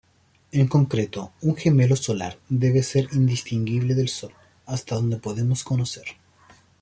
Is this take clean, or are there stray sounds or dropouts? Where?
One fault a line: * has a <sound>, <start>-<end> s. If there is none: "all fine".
all fine